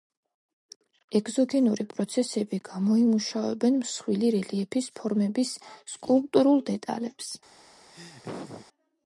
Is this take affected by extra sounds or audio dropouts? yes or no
yes